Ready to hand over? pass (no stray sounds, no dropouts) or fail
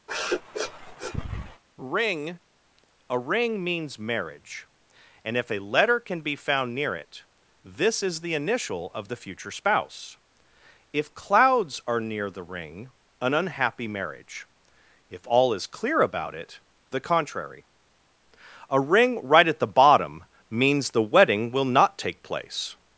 fail